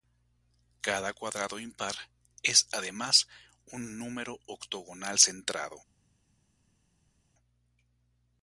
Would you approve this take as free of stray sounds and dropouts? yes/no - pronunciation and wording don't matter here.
yes